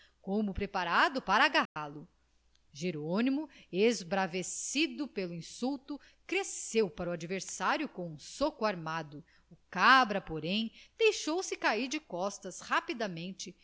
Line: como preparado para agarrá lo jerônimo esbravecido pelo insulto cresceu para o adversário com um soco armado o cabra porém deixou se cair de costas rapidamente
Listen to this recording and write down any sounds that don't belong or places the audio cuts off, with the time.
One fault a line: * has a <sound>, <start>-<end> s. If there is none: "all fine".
* has a dropout, 1.7-1.8 s